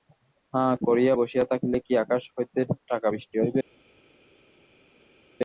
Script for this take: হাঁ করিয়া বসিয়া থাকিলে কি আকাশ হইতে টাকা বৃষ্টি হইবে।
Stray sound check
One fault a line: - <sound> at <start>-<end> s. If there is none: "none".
none